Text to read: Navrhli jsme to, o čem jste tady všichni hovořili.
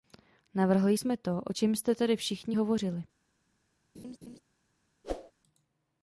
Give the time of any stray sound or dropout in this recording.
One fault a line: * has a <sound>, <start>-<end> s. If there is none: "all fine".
* has a laugh, 3.9-4.4 s
* has a whoosh, 5.0-5.3 s